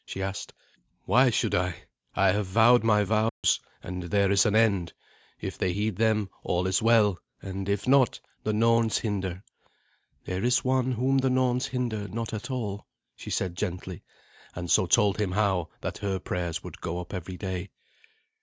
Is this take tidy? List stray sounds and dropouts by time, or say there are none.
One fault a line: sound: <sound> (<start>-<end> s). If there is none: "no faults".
sound: dropout (3.3-3.4 s)